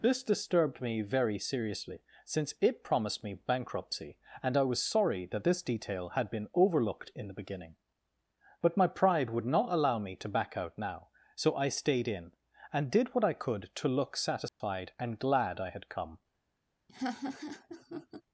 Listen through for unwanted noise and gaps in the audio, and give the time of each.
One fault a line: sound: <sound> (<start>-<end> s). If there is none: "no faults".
sound: dropout (14.5-14.6 s)
sound: laugh (16.9-18.2 s)